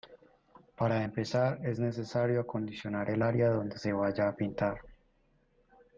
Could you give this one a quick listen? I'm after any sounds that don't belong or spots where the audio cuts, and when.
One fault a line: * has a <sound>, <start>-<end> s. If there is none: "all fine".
all fine